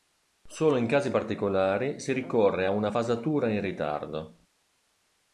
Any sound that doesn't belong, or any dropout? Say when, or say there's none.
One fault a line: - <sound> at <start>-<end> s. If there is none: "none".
none